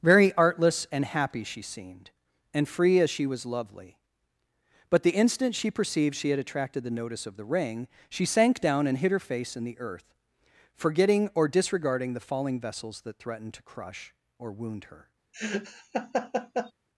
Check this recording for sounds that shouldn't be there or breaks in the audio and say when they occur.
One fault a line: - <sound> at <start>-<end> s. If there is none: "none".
- laugh at 15.3-16.7 s